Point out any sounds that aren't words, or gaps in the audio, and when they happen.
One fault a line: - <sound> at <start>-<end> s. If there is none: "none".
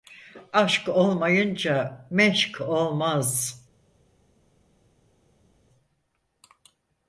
none